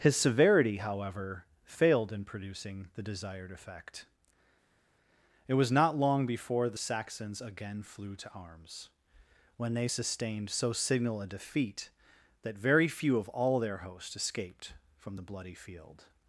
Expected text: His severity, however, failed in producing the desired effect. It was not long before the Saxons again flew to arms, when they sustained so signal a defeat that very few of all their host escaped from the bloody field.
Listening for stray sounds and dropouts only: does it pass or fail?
pass